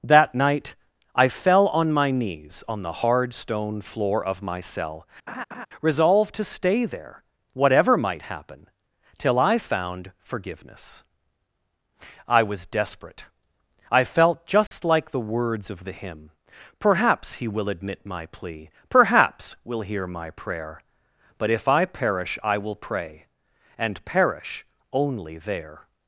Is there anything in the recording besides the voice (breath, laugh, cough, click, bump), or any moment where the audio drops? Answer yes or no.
yes